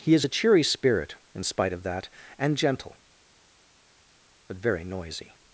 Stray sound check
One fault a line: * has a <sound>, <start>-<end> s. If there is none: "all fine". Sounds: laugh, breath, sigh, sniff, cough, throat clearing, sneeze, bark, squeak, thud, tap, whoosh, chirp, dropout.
all fine